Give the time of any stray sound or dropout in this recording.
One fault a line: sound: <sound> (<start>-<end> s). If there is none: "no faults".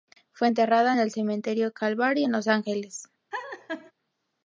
sound: laugh (3.3-3.9 s)